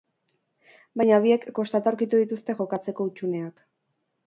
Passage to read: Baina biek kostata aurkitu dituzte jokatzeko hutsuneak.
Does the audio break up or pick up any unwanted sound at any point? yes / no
no